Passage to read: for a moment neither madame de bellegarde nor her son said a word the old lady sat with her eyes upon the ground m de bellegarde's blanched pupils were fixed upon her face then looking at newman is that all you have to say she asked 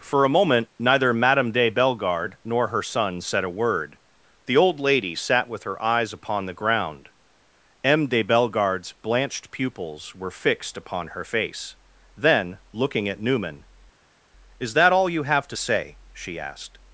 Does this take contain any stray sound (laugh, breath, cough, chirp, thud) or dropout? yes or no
no